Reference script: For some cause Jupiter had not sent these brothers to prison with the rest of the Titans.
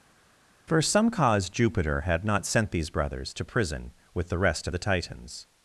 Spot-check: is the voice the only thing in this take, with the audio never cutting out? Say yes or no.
yes